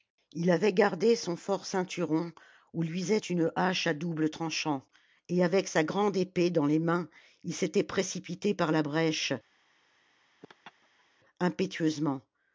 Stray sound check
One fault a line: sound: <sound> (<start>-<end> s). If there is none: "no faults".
sound: laugh (10.4-11.1 s)